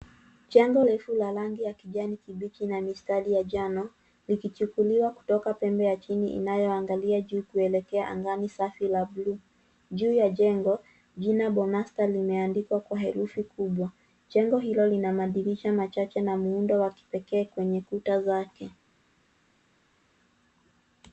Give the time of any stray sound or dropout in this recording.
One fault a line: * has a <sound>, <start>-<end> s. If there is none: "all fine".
all fine